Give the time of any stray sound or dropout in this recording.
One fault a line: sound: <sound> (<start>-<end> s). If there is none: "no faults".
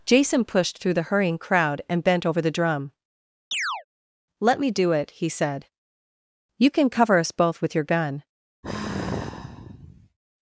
sound: chirp (3.5-3.8 s)
sound: sigh (8.6-10.2 s)